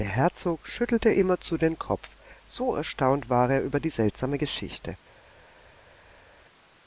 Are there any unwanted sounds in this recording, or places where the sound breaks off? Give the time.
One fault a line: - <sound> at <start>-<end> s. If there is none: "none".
none